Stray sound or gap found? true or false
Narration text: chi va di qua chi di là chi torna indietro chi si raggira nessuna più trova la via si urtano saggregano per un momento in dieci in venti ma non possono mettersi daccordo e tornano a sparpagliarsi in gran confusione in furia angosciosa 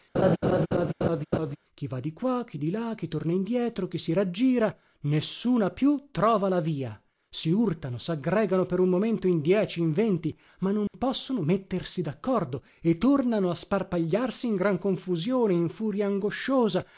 true